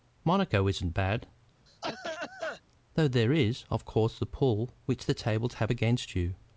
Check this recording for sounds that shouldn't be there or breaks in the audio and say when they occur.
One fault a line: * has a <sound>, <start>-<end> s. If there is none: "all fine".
* has a cough, 1.7-2.6 s